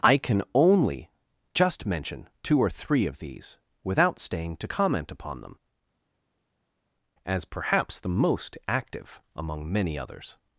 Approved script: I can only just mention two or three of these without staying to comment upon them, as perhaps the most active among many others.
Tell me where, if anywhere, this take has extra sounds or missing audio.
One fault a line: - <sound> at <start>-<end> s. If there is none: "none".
none